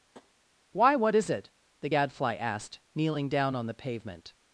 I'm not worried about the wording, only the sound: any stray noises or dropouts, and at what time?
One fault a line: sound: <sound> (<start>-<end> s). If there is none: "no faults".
sound: tap (0.1-0.3 s)